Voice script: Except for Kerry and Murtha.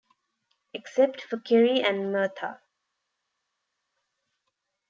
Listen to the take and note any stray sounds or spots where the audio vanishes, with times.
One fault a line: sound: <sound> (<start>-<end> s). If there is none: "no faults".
no faults